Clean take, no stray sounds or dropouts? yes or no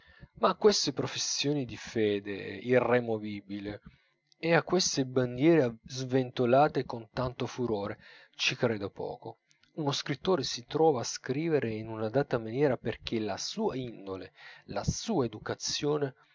yes